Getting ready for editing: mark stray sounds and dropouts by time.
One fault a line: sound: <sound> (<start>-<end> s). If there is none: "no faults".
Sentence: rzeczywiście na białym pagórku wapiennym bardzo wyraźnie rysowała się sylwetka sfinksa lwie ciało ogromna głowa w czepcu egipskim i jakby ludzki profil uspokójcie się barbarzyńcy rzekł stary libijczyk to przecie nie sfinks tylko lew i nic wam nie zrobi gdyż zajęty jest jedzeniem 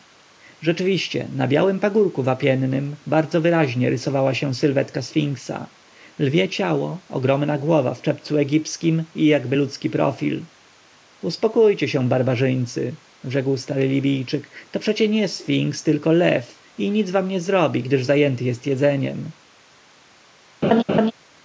sound: laugh (20.6-21.1 s)